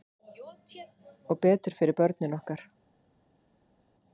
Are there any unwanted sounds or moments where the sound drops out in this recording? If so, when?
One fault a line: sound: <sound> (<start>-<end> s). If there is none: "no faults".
no faults